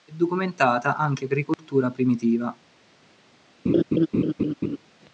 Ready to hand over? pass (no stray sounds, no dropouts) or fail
fail